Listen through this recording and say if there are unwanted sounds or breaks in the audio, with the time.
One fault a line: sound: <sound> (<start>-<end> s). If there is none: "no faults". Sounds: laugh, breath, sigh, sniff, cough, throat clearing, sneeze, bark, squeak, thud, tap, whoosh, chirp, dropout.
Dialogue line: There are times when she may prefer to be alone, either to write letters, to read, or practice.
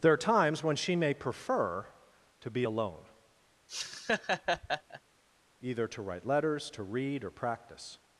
sound: laugh (3.7-5.0 s)